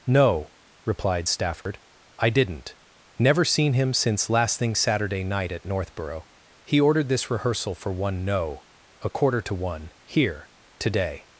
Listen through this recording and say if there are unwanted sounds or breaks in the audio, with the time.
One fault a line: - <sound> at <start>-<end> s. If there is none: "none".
- dropout at 1.6-1.7 s